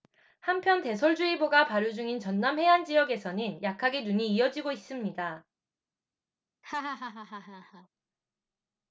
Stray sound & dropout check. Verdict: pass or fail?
fail